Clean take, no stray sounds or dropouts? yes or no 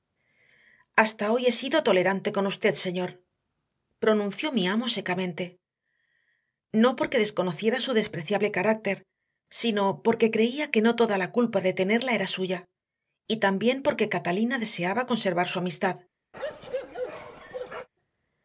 no